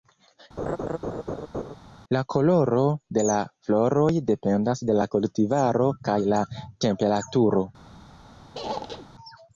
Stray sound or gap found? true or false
true